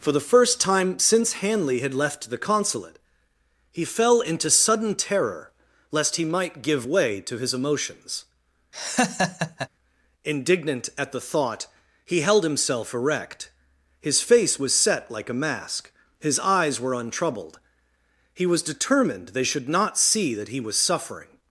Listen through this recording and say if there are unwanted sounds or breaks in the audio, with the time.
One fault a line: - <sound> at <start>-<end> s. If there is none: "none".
- laugh at 8.7-9.7 s